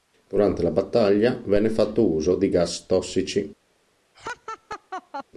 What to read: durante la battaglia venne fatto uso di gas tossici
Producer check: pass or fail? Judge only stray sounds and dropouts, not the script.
fail